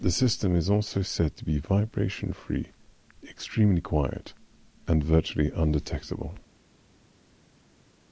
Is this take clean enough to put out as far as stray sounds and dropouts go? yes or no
yes